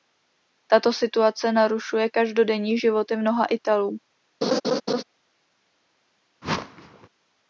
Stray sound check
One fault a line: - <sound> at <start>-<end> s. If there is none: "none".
- laugh at 4.4-5.0 s
- whoosh at 6.4-7.1 s